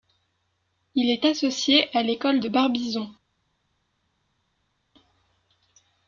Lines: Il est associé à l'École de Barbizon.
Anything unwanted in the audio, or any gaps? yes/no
no